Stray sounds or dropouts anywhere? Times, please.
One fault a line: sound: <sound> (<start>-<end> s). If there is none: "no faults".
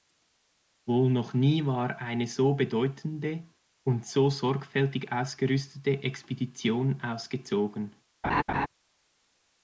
sound: laugh (8.2-8.7 s)